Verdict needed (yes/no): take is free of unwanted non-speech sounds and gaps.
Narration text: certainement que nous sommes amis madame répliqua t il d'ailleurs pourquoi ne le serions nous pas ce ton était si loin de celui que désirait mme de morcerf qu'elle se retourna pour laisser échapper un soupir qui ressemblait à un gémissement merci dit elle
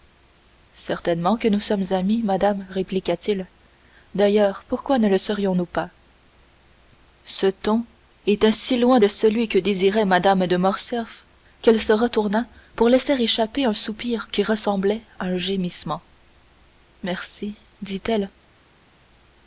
yes